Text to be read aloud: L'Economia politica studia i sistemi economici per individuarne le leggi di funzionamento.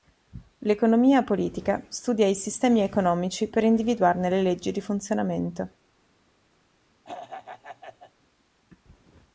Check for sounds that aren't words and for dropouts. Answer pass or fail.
fail